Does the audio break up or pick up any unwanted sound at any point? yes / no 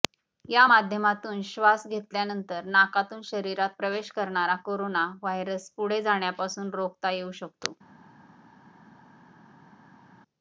no